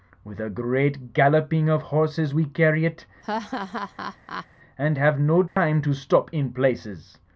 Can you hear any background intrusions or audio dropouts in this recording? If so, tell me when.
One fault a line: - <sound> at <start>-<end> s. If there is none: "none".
- laugh at 3.2-4.5 s
- dropout at 5.5-5.6 s